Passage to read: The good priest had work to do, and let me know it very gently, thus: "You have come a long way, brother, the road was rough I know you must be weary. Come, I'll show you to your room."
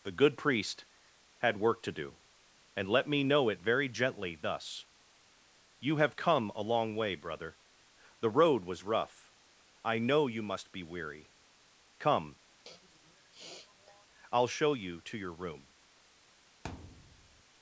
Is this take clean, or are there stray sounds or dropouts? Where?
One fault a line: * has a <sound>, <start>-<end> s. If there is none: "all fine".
* has a sniff, 12.7-14.1 s
* has a thud, 16.6-17.4 s